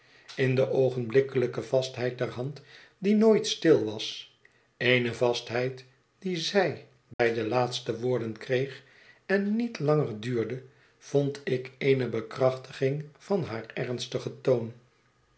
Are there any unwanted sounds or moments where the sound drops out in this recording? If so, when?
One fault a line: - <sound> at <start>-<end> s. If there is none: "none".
- dropout at 7.1-7.2 s